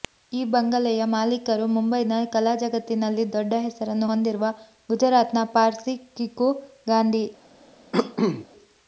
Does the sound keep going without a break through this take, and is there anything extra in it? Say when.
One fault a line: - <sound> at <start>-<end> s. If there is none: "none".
- cough at 7.9-8.5 s